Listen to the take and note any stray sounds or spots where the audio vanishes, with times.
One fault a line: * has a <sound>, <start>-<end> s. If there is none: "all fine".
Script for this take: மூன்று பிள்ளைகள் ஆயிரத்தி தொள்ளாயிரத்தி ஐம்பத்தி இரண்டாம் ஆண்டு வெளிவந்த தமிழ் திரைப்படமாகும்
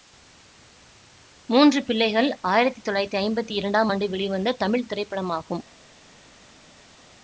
all fine